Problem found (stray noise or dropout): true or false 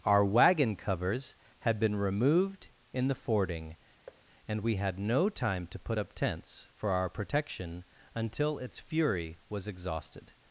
true